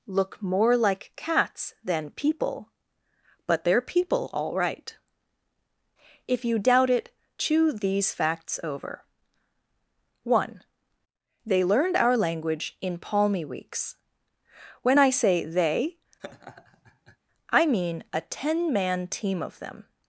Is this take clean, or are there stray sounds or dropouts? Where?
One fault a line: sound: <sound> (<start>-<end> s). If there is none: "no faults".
sound: laugh (16.2-17.2 s)